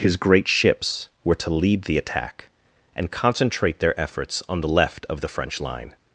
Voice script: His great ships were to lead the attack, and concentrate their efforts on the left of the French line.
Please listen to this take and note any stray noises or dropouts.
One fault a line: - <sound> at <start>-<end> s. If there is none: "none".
none